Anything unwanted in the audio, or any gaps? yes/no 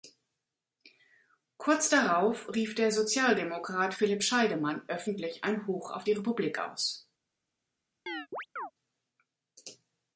yes